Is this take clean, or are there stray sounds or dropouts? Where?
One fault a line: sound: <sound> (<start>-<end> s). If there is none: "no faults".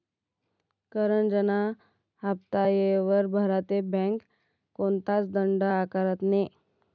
no faults